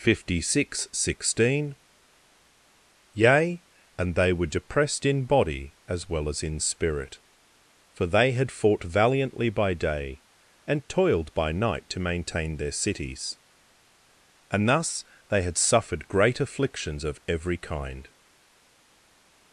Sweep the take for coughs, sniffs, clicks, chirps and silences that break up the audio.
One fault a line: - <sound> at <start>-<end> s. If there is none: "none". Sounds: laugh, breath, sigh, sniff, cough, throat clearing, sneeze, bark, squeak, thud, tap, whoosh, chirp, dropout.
none